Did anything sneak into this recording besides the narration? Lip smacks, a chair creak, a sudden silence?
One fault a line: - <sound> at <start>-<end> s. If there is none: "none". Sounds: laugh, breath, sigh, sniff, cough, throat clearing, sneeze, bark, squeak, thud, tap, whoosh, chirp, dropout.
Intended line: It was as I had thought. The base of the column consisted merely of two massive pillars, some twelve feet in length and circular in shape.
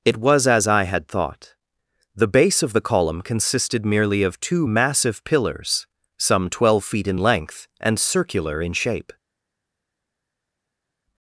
none